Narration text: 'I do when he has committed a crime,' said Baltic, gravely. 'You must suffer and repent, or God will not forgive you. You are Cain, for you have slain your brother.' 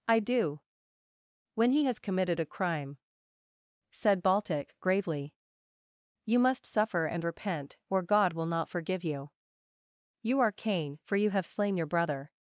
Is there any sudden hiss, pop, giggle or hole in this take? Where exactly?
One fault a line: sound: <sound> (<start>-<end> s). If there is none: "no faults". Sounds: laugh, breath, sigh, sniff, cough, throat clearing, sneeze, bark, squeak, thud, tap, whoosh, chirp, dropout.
no faults